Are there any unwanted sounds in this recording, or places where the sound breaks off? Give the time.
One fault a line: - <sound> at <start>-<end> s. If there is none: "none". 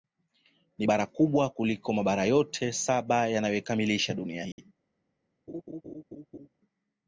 - dropout at 4.5-4.6 s
- laugh at 5.5-6.5 s